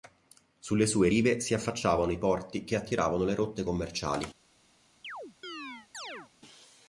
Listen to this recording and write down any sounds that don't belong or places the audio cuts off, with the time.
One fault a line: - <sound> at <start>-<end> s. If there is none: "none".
- chirp at 5.0-6.3 s